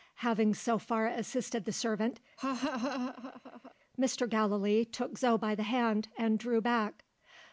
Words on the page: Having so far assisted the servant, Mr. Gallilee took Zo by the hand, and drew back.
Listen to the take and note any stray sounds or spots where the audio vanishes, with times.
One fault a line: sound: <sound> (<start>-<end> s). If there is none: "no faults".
sound: laugh (2.4-3.7 s)